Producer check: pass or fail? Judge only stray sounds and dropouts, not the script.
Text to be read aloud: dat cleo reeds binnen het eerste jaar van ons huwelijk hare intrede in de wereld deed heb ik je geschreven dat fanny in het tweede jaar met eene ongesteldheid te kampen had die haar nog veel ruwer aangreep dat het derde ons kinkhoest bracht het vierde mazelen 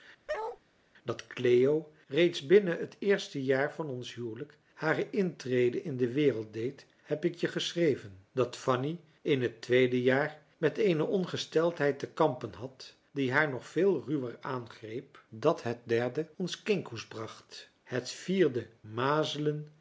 fail